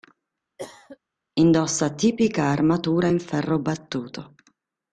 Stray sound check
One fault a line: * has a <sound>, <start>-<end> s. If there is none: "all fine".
* has a cough, 0.6-1.0 s